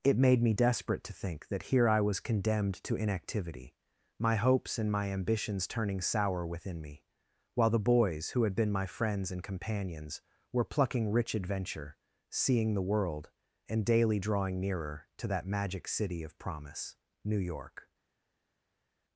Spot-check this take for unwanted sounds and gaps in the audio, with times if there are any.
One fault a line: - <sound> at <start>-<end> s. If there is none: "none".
none